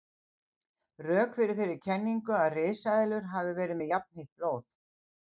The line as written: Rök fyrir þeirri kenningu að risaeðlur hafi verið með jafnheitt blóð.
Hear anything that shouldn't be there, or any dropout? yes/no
no